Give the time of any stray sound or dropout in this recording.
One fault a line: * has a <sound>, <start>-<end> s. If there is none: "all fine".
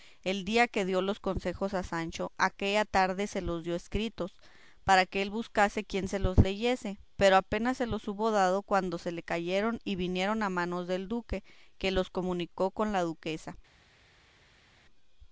all fine